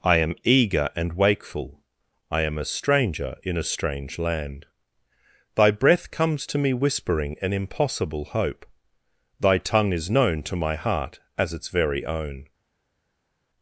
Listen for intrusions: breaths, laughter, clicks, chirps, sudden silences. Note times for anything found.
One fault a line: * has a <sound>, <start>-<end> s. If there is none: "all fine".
all fine